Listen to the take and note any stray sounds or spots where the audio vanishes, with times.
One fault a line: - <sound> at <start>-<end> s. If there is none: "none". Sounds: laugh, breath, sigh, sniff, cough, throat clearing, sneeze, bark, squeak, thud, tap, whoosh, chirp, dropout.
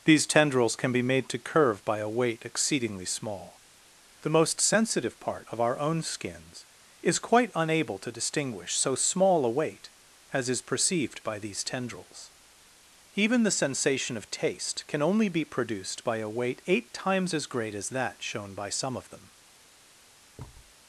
- thud at 20.4-20.7 s